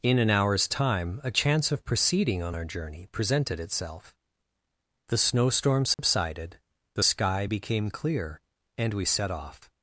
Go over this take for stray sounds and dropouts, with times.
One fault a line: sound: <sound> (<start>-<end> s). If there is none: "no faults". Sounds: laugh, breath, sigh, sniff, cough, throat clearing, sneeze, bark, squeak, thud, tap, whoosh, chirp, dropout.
sound: dropout (5.9-6.0 s)